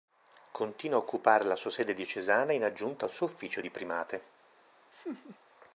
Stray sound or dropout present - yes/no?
yes